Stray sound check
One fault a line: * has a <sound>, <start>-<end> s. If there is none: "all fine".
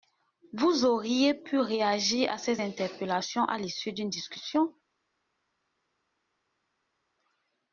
all fine